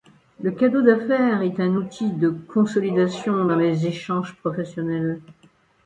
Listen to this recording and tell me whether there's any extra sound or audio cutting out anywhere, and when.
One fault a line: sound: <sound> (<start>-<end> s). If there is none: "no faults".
no faults